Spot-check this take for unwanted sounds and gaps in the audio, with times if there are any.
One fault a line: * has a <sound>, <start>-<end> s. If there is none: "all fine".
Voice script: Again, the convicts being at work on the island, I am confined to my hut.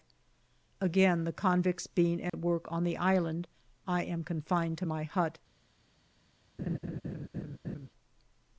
* has a dropout, 2.3-2.3 s
* has a laugh, 6.6-7.9 s